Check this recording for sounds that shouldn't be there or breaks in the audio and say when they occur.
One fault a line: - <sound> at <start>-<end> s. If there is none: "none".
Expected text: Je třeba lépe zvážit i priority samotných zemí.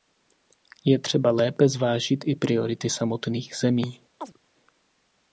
- chirp at 4.2-4.4 s